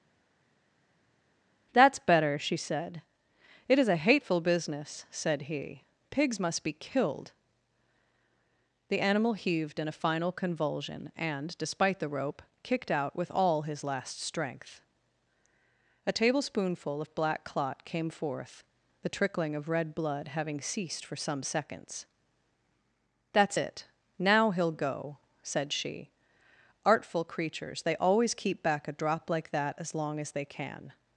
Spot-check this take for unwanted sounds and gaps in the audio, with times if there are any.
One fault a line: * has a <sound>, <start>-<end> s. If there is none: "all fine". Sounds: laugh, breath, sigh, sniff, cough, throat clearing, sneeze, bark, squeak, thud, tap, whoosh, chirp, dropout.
all fine